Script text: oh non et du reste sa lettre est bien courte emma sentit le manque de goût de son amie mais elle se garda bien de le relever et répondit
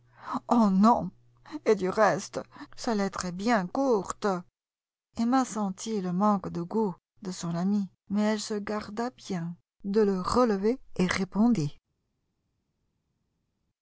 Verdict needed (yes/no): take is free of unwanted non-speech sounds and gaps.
yes